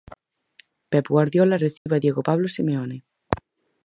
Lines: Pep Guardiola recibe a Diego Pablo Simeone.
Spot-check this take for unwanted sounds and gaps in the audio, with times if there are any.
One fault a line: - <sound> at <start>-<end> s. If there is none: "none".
- dropout at 1.8-1.9 s